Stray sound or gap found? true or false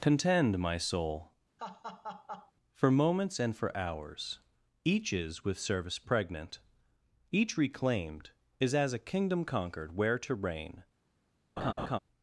true